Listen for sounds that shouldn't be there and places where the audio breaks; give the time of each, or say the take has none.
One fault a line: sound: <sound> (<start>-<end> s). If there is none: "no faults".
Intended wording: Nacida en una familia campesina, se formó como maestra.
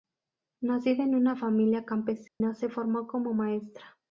sound: dropout (2.3-2.4 s)